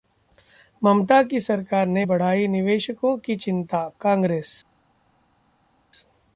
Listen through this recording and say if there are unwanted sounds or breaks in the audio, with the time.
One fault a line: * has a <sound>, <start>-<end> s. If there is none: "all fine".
all fine